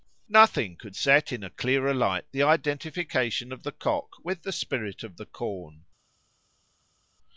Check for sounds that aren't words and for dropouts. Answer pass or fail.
pass